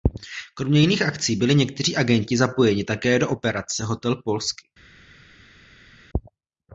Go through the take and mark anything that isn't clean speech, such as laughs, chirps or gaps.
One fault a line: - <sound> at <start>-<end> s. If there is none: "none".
none